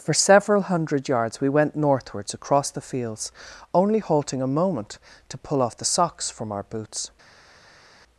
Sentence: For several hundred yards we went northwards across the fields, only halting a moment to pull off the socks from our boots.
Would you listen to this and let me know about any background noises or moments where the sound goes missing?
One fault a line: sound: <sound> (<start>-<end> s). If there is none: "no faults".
no faults